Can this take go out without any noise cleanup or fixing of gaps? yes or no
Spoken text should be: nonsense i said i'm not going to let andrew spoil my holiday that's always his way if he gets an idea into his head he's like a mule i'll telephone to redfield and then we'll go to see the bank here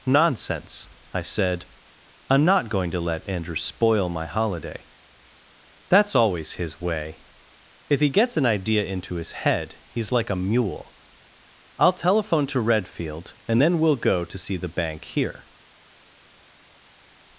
yes